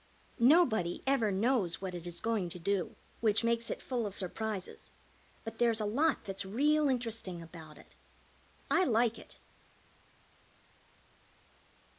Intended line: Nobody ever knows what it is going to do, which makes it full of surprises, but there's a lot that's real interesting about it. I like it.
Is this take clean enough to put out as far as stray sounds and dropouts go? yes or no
yes